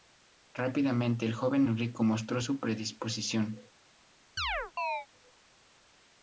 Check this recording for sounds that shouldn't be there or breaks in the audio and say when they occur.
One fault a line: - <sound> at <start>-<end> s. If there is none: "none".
- chirp at 4.4-5.1 s